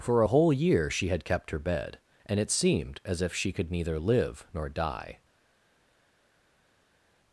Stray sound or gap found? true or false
false